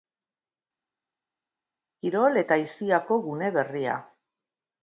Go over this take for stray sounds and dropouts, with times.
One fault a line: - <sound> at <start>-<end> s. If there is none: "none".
none